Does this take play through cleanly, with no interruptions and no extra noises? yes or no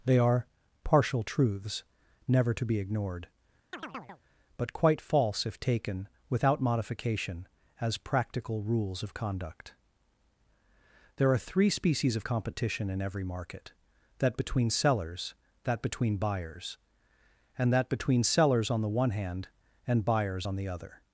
no